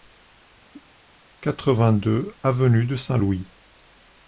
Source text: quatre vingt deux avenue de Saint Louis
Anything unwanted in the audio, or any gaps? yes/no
yes